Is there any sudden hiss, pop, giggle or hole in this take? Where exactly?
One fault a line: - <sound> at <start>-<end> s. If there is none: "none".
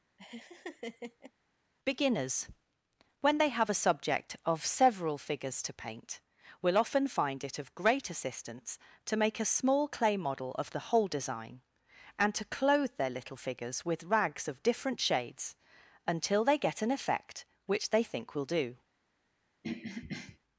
- laugh at 0.2-1.3 s
- throat clearing at 19.6-20.4 s